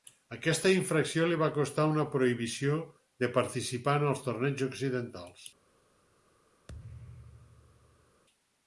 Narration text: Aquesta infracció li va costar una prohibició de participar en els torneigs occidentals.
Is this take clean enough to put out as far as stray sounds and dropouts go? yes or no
no